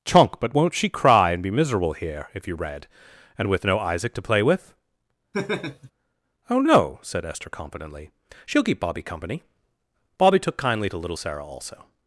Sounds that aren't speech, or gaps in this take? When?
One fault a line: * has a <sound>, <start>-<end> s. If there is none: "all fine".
* has a laugh, 5.3-5.9 s